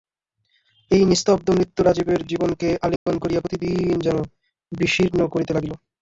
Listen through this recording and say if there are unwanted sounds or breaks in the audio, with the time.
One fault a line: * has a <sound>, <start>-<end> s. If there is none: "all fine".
* has a dropout, 3.0-3.1 s